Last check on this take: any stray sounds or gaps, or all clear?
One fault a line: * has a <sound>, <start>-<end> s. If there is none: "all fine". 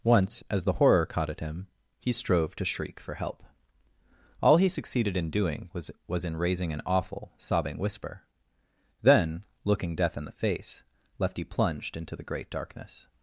all fine